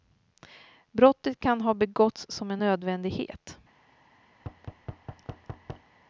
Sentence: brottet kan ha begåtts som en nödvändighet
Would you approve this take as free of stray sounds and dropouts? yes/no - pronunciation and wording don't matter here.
no